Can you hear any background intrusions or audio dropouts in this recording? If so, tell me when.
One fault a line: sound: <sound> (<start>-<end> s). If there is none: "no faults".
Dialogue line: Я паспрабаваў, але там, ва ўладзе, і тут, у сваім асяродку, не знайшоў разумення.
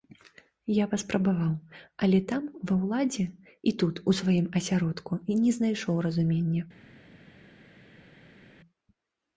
no faults